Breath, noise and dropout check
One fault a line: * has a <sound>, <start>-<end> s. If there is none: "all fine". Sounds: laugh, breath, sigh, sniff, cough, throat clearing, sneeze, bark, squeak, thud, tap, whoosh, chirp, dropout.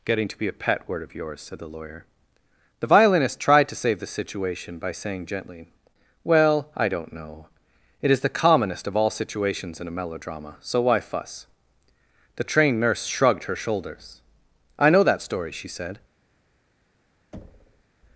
* has a thud, 17.3-17.8 s